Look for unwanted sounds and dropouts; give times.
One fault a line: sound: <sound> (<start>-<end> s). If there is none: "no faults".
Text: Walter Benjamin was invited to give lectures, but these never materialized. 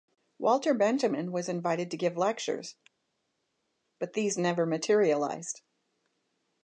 no faults